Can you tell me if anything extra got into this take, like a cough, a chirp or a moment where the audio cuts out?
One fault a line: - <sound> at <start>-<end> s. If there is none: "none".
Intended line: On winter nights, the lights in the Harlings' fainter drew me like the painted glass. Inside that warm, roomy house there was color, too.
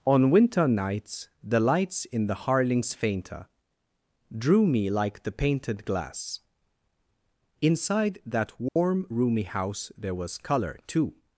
- dropout at 8.7-8.8 s